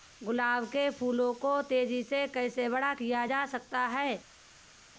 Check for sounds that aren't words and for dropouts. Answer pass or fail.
pass